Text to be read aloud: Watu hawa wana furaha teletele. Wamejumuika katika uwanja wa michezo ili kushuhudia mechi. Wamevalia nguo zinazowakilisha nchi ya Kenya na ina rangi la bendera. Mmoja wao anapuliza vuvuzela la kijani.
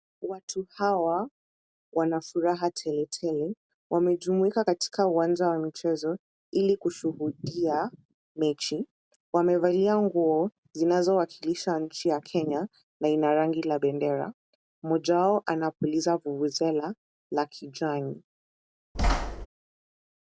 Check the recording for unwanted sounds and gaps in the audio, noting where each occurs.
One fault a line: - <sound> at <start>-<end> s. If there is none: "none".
- thud at 18.9-19.5 s